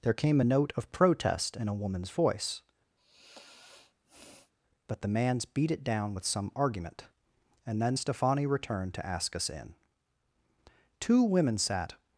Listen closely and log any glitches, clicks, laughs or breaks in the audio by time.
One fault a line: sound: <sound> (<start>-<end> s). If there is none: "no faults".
sound: sigh (3.0-4.5 s)